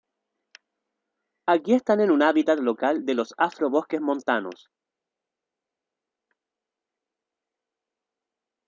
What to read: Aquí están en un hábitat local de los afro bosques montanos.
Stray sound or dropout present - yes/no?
no